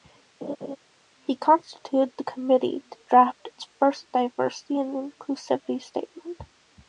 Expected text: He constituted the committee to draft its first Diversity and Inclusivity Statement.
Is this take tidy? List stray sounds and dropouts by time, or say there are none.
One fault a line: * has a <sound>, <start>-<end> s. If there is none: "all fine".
* has a laugh, 0.4-0.8 s